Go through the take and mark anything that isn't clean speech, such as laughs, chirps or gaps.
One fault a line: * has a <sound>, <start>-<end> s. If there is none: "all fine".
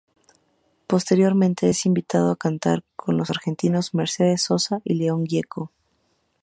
all fine